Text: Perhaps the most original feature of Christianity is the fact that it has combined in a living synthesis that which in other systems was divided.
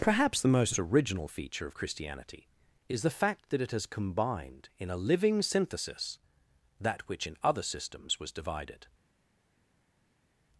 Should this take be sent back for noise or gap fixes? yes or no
no